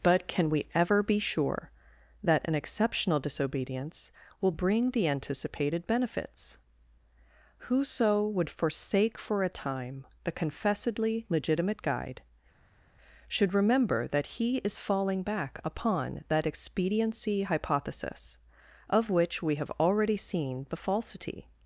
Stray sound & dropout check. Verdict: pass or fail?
pass